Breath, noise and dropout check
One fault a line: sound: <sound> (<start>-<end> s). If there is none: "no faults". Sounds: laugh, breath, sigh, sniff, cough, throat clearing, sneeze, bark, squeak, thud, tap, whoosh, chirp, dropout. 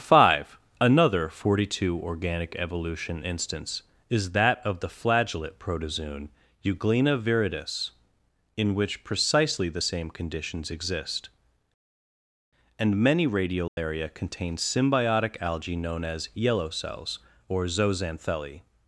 sound: dropout (13.7-13.8 s)